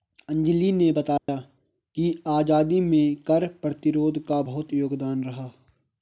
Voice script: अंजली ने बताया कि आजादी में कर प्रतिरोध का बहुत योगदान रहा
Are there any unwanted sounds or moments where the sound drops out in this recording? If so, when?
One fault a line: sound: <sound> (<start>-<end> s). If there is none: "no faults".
sound: dropout (1.2-1.3 s)